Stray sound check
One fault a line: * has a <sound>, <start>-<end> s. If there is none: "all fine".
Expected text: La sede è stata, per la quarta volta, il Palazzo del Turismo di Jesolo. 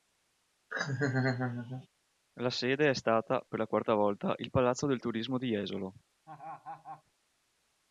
* has a laugh, 0.7-1.9 s
* has a laugh, 6.3-7.0 s